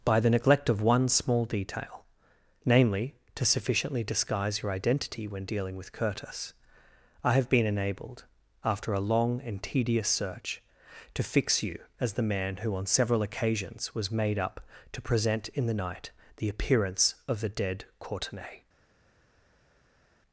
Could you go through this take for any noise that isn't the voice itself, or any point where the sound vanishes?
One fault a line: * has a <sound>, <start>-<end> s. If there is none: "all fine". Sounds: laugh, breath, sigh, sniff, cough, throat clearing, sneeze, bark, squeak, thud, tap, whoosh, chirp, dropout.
all fine